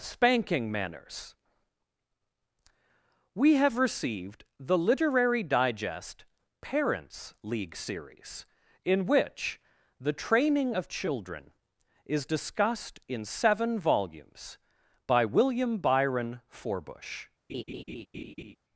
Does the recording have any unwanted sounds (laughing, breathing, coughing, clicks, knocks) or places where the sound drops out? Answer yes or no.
yes